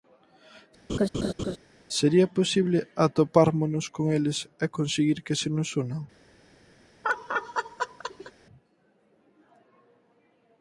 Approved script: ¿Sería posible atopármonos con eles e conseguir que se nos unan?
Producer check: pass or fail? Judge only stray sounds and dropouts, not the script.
fail